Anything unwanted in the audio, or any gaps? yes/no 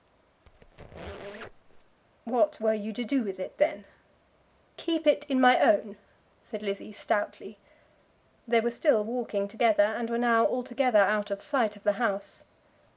yes